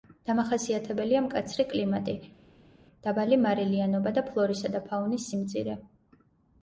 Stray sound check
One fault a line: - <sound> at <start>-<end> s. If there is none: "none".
none